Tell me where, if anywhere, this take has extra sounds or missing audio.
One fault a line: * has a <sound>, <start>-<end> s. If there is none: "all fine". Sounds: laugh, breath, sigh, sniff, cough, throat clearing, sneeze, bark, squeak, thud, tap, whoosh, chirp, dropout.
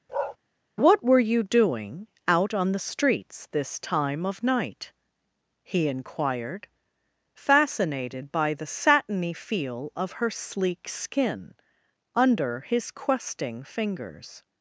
* has a bark, 0.1-0.4 s